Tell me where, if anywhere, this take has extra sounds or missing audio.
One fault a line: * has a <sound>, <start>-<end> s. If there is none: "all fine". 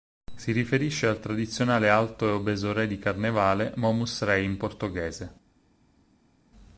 all fine